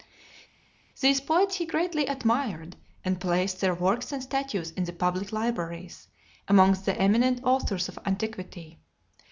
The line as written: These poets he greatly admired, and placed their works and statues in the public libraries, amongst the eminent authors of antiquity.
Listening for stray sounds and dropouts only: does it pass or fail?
pass